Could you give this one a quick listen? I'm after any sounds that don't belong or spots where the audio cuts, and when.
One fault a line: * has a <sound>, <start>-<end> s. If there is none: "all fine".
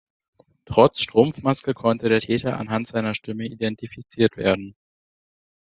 all fine